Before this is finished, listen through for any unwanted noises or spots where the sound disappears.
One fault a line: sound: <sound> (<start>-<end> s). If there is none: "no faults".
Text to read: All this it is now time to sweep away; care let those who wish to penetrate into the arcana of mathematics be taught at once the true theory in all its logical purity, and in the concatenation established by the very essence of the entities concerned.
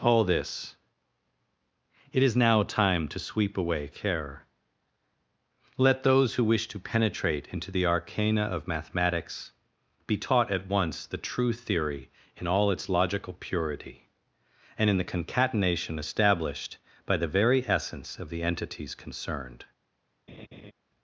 sound: laugh (20.3-20.7 s)